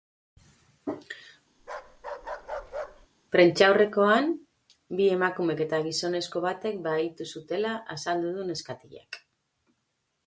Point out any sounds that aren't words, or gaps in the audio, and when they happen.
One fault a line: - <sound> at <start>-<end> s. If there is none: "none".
- bark at 1.6-3.1 s